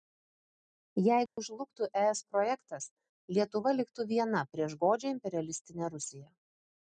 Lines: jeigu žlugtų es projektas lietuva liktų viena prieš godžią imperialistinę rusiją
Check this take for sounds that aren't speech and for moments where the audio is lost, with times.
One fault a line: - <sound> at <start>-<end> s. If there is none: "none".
- dropout at 1.3-1.4 s